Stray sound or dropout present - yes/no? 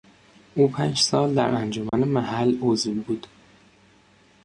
yes